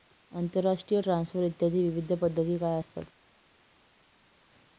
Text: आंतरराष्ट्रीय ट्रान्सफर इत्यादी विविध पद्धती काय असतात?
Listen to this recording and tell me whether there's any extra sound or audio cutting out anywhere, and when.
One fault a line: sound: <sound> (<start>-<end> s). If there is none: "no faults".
no faults